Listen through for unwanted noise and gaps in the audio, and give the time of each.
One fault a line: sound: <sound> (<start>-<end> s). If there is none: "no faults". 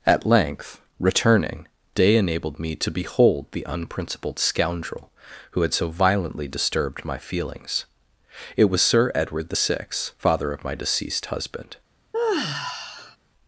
sound: sigh (12.1-13.2 s)